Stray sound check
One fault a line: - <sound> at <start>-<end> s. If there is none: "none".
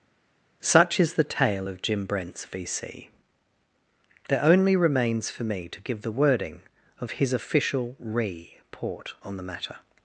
none